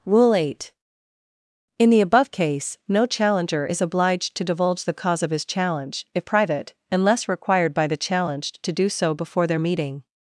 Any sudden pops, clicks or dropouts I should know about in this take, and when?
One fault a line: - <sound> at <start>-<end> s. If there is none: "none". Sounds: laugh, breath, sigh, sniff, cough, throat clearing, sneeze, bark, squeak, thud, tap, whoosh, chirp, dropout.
none